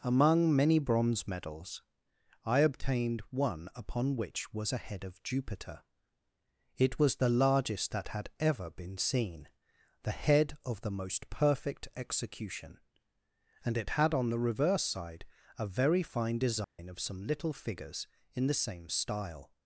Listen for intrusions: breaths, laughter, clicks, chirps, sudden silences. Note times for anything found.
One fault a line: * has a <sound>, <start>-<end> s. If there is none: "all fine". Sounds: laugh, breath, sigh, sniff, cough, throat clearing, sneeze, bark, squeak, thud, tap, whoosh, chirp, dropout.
* has a dropout, 16.6-16.8 s